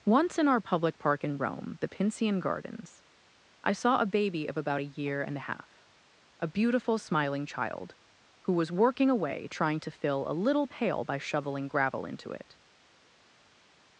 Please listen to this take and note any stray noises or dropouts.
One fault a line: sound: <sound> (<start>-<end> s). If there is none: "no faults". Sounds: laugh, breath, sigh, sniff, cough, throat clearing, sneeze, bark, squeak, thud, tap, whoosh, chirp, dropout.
no faults